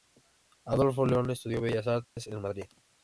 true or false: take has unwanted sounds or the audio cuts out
true